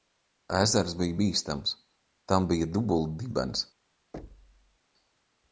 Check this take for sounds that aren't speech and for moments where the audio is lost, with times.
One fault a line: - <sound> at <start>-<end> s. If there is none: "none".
- thud at 4.1-4.8 s